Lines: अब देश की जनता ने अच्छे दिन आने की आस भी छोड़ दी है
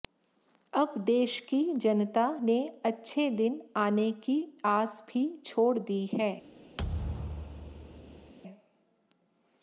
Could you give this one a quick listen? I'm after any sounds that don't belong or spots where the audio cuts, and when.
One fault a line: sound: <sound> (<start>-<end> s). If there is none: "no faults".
sound: thud (6.8-8.3 s)